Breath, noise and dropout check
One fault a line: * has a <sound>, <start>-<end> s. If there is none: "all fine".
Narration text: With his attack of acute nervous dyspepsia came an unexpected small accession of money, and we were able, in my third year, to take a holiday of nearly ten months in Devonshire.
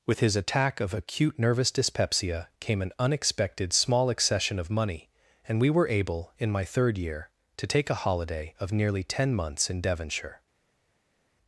all fine